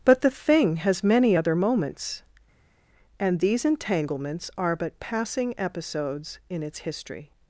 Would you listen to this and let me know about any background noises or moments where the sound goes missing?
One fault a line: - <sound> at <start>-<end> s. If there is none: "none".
none